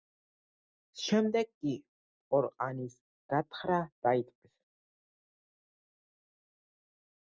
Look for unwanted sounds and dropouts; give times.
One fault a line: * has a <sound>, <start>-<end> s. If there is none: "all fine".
all fine